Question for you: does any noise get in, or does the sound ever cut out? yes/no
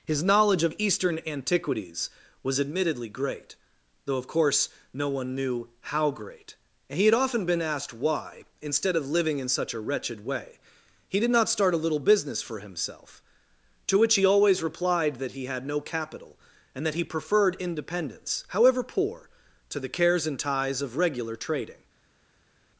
no